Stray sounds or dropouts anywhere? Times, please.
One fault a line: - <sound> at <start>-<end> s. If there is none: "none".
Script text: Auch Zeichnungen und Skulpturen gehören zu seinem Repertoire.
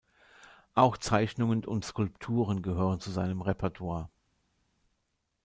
none